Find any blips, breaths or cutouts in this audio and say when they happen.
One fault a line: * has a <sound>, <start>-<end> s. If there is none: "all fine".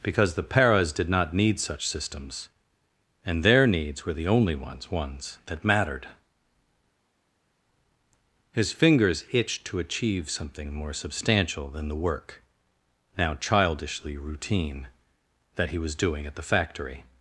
all fine